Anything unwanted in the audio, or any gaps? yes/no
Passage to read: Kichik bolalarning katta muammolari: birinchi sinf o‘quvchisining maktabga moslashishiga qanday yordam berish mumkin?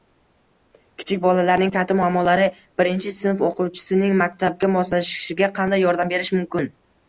no